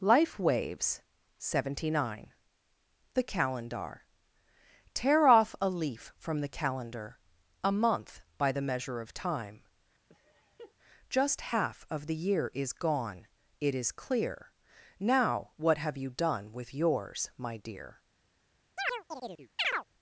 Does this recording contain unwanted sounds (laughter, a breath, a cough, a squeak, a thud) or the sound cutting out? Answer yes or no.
yes